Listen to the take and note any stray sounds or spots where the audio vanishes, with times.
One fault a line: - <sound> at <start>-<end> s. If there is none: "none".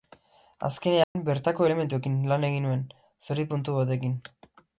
- dropout at 1.0-1.2 s